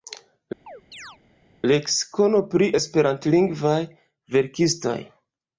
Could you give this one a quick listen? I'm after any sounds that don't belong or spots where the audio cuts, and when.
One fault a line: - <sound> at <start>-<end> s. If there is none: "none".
- chirp at 0.7-1.2 s